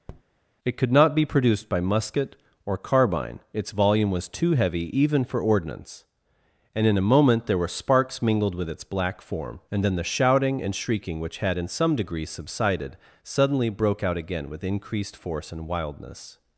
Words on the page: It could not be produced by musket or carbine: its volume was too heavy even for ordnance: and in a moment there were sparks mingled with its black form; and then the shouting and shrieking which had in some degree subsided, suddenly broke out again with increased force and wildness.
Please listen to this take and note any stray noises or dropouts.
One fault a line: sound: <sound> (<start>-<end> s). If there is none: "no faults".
sound: tap (0.1-0.2 s)